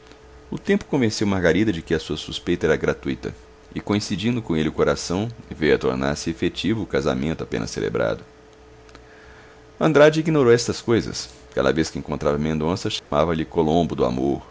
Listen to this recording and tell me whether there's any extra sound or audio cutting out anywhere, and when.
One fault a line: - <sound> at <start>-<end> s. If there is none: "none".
- dropout at 13.0-13.1 s